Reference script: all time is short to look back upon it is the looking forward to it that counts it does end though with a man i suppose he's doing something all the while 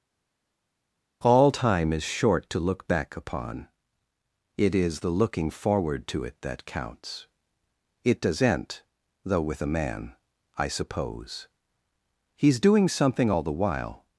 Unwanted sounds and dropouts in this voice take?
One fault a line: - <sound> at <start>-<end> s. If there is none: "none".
none